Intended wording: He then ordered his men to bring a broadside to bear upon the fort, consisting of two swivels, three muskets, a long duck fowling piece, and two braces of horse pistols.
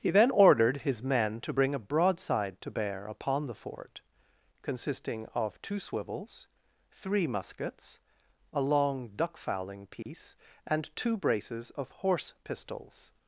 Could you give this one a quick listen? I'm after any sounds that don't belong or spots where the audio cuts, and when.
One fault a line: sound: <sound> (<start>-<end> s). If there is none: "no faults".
sound: dropout (10.0-10.1 s)